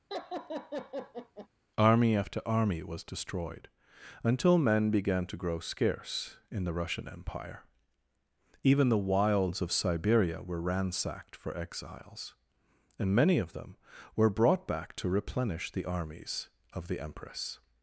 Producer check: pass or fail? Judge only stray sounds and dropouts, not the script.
fail